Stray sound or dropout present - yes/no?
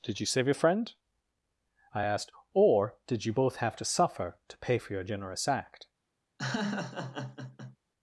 yes